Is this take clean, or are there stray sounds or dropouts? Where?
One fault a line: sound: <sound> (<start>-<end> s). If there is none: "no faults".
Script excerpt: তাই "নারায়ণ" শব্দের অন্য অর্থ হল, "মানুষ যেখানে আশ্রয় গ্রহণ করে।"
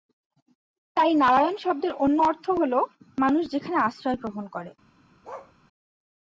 sound: bark (5.2-5.5 s)